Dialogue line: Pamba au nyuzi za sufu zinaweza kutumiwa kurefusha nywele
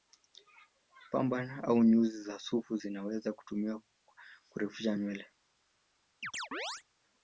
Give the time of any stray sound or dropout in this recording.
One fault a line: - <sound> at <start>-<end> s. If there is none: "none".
- chirp at 6.2-6.8 s